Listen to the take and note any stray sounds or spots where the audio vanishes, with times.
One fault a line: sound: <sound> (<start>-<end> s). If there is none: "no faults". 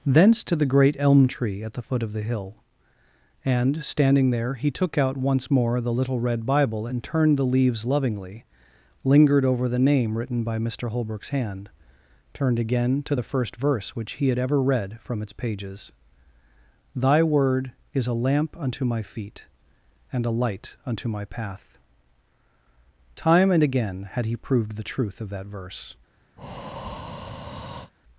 sound: breath (26.4-27.9 s)